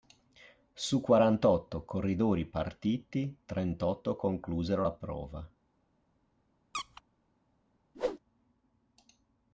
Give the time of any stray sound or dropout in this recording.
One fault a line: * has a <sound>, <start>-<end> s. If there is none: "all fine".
* has a squeak, 6.7-7.0 s
* has a whoosh, 7.9-8.2 s